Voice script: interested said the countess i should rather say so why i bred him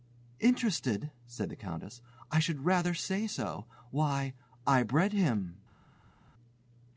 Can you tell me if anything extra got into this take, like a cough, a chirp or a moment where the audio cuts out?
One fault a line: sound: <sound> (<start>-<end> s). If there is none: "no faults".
no faults